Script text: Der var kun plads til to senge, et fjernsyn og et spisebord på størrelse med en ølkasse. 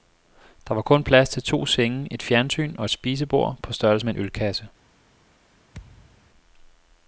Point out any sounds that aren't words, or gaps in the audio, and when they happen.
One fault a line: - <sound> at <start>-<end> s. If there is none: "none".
- thud at 5.7-6.3 s